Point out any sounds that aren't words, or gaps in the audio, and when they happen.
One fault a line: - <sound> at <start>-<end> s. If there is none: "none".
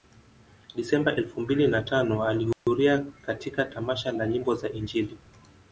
- dropout at 2.5-2.7 s